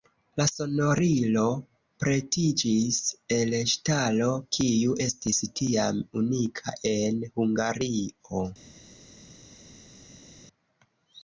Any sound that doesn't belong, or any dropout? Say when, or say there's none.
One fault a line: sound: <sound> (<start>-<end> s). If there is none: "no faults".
no faults